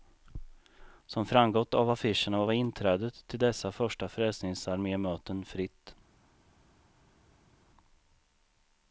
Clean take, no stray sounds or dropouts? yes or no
yes